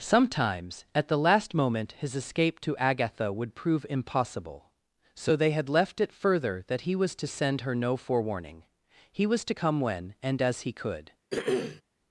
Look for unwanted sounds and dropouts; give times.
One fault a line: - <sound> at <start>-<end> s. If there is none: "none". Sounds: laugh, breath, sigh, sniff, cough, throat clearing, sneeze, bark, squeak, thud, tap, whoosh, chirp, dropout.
- throat clearing at 11.3-11.8 s